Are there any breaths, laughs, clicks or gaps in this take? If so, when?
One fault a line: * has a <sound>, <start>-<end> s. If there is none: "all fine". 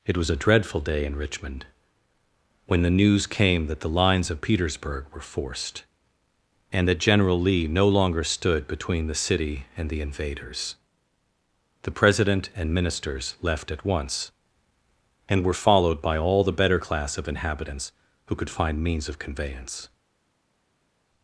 all fine